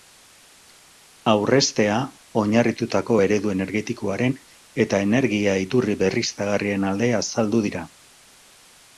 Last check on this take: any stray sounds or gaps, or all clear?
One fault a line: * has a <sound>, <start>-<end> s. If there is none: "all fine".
all fine